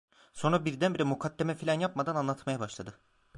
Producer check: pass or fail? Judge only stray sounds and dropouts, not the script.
pass